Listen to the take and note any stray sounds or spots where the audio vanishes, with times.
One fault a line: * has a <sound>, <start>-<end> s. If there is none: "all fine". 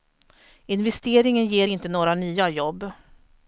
all fine